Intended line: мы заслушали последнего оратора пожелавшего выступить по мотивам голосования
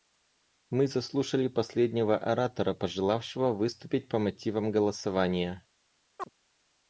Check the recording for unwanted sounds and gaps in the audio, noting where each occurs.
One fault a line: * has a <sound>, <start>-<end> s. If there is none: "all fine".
* has a chirp, 6.2-6.3 s